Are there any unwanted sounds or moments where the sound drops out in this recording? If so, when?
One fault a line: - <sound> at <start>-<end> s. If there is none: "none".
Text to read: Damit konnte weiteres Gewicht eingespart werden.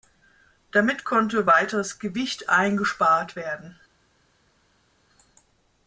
none